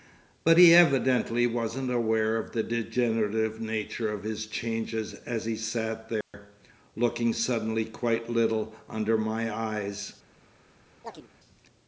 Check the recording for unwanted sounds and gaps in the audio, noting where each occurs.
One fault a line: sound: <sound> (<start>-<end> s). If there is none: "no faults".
sound: dropout (6.2-6.3 s)
sound: chirp (11.0-11.3 s)